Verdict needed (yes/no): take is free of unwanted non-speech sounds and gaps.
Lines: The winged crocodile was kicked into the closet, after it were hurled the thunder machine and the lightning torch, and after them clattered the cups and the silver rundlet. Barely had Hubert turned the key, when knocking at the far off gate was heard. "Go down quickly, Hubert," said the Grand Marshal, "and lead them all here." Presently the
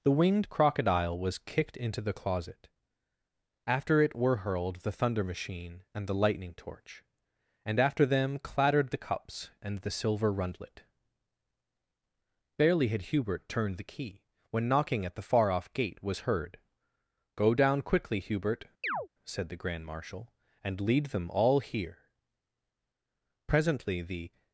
no